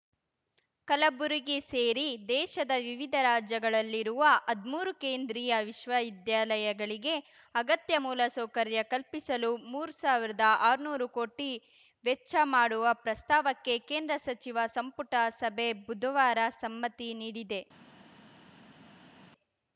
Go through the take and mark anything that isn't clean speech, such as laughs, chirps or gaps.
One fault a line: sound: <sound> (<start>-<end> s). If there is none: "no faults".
no faults